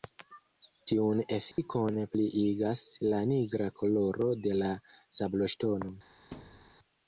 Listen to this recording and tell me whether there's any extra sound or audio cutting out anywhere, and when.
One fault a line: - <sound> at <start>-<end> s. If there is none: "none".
- dropout at 1.5-1.6 s
- thud at 6.3-6.8 s